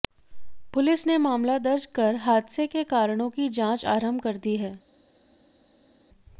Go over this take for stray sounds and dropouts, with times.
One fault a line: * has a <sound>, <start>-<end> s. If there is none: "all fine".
all fine